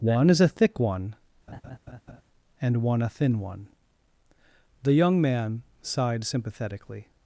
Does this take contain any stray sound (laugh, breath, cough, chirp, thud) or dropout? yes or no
yes